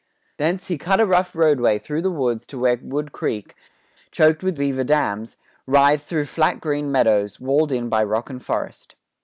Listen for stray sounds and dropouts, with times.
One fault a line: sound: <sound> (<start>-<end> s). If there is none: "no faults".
no faults